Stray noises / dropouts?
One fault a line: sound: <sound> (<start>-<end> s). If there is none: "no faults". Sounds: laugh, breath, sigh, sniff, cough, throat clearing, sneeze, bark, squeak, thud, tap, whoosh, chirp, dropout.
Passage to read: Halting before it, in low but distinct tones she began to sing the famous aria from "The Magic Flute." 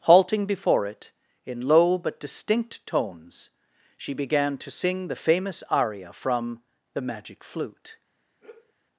sound: sigh (8.4-8.7 s)